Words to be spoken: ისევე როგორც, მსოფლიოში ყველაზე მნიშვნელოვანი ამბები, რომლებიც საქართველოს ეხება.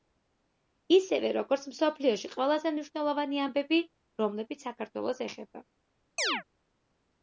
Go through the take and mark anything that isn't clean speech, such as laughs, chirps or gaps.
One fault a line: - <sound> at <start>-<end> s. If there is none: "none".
- chirp at 6.2-6.4 s